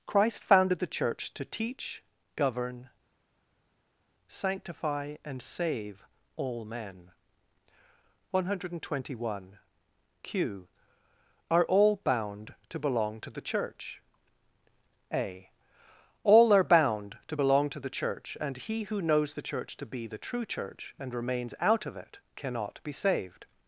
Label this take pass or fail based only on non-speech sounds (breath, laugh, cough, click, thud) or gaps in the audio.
pass